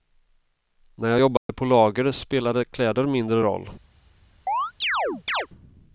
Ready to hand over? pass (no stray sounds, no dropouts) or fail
fail